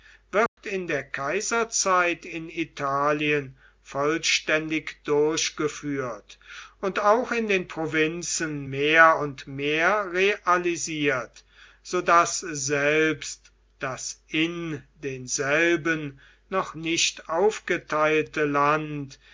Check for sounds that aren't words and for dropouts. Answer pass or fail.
fail